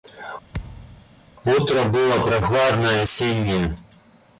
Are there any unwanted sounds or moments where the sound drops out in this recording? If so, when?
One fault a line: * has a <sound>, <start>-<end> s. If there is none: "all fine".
* has a thud, 0.5-1.1 s